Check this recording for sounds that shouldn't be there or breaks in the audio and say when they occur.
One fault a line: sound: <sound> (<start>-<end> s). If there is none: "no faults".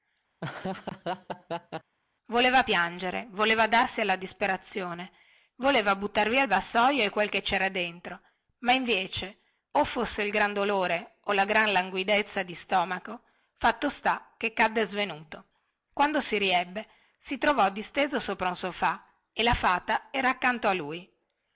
sound: laugh (0.4-1.9 s)